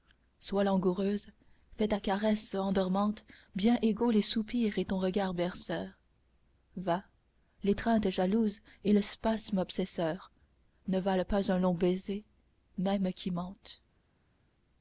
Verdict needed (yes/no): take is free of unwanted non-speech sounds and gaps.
yes